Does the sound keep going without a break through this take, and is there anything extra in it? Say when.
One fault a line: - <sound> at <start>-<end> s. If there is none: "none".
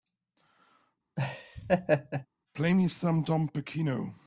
- laugh at 1.2-2.3 s